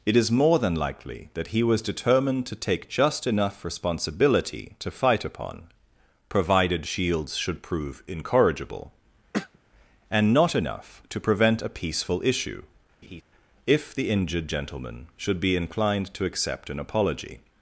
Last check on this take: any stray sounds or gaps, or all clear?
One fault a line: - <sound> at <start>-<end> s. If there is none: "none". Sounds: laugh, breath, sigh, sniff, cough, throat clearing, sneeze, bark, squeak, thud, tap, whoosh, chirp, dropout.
- throat clearing at 9.3-9.6 s
- laugh at 13.0-13.2 s